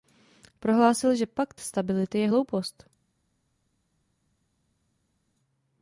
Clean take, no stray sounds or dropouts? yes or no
yes